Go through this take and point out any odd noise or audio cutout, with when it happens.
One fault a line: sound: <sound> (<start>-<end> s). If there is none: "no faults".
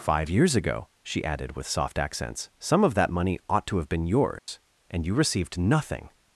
sound: dropout (4.4-4.5 s)